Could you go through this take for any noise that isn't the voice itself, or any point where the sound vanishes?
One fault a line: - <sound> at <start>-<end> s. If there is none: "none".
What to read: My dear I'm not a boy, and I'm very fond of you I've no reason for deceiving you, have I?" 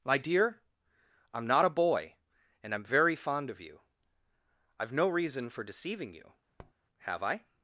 - tap at 6.6-6.7 s